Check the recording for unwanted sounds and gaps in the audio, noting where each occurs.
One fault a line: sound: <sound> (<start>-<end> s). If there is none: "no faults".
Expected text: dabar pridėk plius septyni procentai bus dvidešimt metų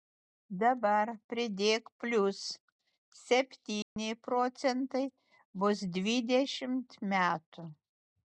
sound: dropout (3.8-4.0 s)